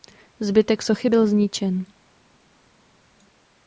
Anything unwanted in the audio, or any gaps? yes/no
no